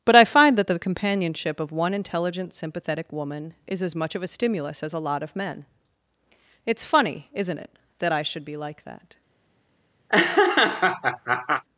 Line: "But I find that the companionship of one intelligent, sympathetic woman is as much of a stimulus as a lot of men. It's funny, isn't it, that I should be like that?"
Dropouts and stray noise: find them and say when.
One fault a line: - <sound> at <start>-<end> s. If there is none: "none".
- laugh at 10.1-11.6 s